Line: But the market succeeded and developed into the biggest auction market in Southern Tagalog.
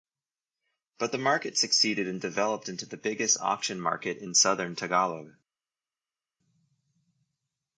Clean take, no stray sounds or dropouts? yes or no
yes